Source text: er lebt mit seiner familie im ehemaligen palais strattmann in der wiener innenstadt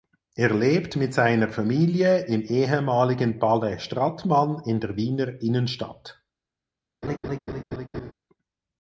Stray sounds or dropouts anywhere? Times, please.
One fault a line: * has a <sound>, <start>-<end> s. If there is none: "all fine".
* has a laugh, 7.0-8.1 s